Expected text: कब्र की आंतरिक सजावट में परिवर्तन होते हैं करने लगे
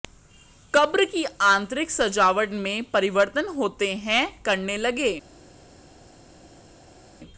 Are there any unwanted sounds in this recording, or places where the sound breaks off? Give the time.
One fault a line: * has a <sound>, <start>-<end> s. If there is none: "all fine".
all fine